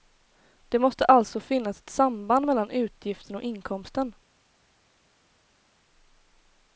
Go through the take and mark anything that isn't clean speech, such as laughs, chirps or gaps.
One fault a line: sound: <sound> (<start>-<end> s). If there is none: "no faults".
no faults